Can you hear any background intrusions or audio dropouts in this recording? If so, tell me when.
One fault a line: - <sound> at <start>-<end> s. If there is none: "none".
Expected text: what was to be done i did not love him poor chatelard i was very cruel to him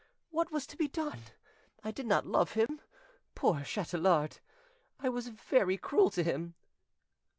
- dropout at 2.7-2.7 s